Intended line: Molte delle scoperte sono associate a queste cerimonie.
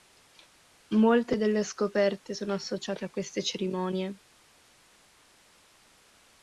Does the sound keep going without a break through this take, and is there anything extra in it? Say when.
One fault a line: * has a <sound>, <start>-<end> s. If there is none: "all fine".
all fine